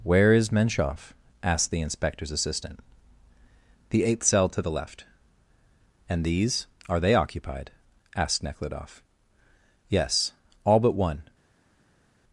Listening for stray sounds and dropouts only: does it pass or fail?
pass